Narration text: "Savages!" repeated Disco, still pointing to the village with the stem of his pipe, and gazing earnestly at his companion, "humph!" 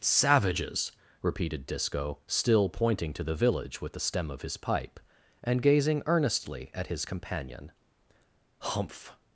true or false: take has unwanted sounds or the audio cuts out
false